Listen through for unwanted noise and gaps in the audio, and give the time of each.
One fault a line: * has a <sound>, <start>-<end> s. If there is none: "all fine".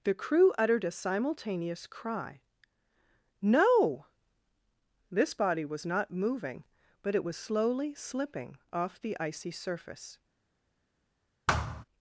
* has a thud, 11.5-11.8 s